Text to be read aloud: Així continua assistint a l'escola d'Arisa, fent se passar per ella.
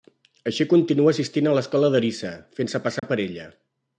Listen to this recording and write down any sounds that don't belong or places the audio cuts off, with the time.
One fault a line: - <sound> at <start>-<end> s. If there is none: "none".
- dropout at 3.0-3.0 s